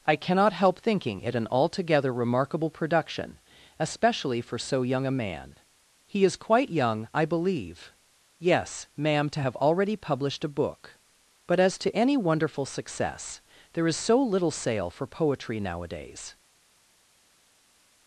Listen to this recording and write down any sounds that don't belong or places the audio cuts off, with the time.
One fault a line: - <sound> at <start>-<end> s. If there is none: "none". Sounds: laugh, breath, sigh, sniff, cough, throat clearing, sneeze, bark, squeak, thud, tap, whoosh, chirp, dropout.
none